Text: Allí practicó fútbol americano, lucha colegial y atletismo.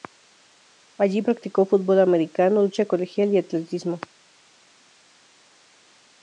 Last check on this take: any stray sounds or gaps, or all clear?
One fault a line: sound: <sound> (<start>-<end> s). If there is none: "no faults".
no faults